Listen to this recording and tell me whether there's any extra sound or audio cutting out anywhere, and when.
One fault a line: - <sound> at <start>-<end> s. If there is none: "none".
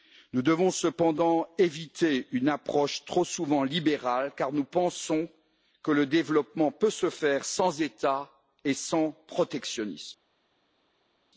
none